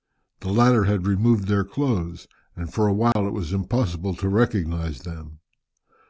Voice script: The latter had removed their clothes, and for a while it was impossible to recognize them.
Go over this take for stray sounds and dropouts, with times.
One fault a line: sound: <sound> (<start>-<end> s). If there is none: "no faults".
sound: dropout (3.1-3.2 s)